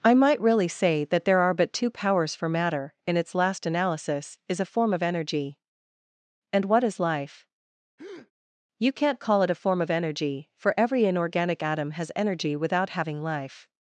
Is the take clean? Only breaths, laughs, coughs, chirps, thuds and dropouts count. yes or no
no